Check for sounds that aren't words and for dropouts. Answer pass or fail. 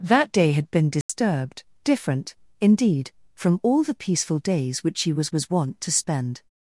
fail